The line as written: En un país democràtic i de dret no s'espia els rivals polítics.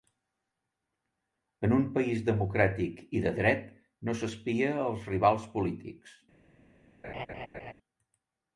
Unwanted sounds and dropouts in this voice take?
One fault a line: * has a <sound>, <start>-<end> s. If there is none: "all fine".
* has a laugh, 7.0-7.7 s